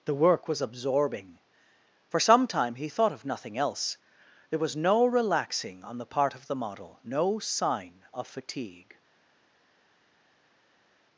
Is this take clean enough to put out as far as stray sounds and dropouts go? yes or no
yes